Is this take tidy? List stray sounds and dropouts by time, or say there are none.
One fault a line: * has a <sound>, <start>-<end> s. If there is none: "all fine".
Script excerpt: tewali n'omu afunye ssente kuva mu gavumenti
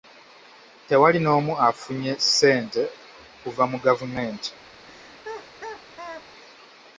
* has a laugh, 4.8-6.3 s